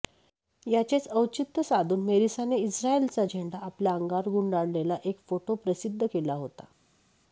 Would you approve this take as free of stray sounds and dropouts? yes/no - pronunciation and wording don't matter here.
yes